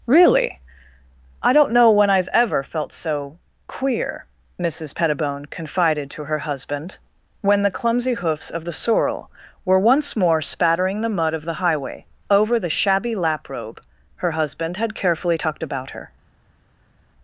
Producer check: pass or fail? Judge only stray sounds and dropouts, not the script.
pass